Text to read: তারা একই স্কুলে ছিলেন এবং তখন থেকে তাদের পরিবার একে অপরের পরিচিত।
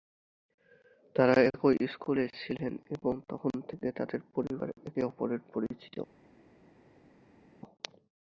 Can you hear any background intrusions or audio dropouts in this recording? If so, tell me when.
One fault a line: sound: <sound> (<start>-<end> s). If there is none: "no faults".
no faults